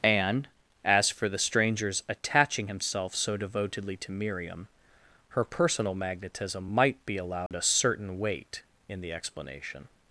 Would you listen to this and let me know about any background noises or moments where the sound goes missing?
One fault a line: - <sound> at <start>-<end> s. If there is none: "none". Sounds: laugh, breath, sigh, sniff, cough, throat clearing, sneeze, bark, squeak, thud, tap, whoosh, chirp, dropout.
- dropout at 7.5-7.5 s